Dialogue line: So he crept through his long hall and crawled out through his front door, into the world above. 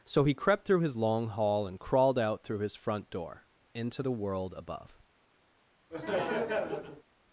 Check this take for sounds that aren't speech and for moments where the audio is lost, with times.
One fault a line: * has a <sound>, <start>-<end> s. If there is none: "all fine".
* has a laugh, 5.9-7.0 s